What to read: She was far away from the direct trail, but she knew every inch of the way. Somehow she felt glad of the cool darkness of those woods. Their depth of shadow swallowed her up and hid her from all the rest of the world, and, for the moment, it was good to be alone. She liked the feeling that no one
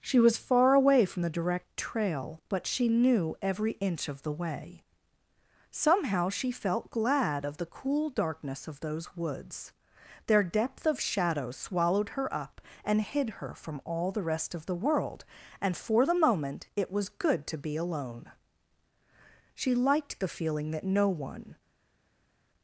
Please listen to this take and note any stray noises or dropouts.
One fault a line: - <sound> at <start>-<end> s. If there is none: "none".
none